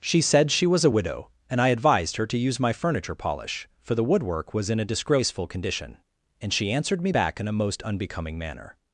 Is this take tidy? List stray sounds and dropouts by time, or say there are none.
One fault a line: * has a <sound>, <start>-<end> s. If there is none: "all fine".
all fine